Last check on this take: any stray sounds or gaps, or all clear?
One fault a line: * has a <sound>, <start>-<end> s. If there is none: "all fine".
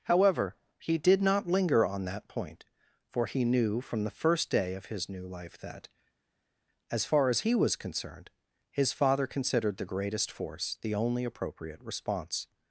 all fine